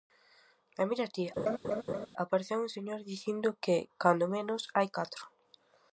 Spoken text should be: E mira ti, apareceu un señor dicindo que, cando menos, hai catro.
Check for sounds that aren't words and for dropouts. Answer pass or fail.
fail